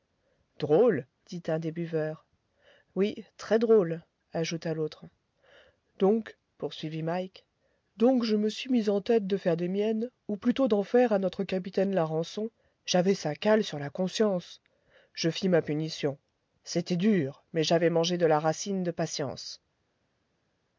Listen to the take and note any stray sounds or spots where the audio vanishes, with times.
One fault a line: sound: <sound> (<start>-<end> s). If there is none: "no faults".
no faults